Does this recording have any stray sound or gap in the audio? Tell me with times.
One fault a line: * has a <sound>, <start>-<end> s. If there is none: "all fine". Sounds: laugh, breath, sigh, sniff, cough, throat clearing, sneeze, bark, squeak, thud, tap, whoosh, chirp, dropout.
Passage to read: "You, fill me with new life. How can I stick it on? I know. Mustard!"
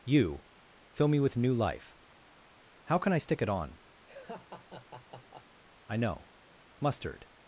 * has a laugh, 4.1-5.6 s